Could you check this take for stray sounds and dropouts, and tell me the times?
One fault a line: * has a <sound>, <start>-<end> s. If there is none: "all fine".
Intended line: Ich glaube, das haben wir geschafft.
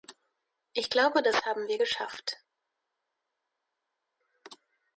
all fine